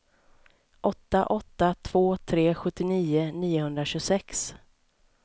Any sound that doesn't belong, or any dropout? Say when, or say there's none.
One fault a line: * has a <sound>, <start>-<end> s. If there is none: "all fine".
all fine